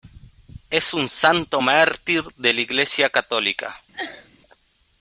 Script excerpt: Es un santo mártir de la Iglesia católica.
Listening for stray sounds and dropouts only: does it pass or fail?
fail